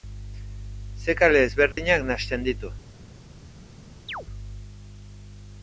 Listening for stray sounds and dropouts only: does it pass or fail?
fail